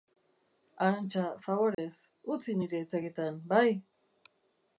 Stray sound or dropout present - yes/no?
yes